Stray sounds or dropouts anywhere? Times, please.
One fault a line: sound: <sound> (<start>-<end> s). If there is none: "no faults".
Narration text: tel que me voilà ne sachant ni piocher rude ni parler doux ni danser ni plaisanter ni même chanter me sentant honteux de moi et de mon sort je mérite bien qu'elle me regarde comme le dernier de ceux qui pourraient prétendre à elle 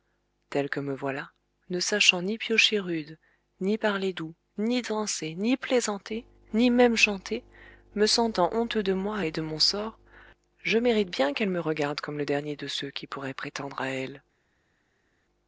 no faults